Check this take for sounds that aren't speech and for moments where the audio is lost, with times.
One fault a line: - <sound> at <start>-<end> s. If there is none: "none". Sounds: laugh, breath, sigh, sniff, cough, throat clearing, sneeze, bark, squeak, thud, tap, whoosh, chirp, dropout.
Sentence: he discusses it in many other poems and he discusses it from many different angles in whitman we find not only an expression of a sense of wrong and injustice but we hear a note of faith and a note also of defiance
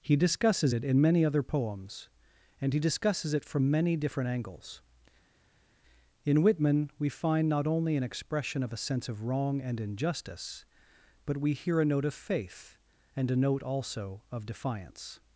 none